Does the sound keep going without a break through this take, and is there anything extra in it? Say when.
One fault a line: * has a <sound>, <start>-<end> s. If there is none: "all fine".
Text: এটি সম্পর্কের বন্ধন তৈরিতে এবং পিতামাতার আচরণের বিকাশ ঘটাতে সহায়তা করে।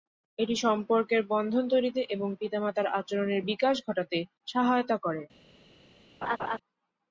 * has a laugh, 6.2-6.6 s